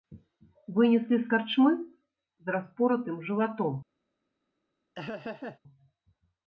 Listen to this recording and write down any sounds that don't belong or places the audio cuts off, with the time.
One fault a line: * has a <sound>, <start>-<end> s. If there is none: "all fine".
* has a laugh, 4.9-5.6 s